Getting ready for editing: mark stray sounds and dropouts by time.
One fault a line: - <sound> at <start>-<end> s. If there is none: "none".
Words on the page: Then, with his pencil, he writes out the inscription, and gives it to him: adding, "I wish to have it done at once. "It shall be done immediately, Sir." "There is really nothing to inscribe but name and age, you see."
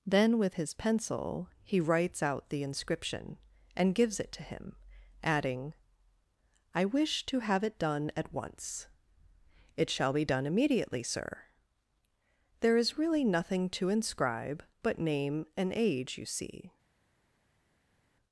none